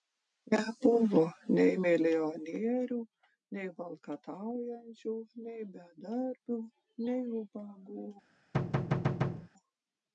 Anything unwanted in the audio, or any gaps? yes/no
yes